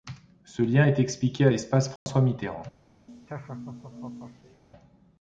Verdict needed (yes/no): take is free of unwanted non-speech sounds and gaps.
no